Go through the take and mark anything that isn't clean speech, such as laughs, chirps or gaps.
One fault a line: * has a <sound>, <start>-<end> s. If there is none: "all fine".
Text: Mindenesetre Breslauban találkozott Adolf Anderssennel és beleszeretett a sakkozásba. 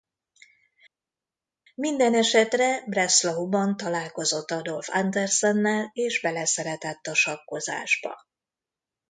all fine